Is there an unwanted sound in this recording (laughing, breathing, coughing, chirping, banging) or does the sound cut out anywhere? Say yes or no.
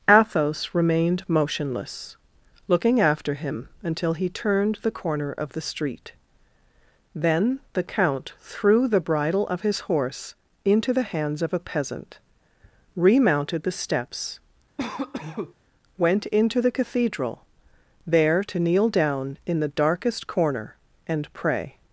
yes